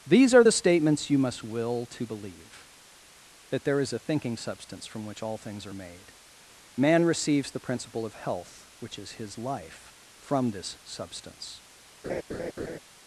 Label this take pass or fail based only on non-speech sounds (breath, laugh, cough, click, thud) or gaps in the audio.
fail